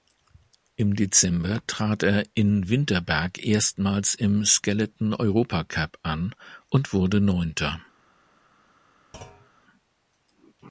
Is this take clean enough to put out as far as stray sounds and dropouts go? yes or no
no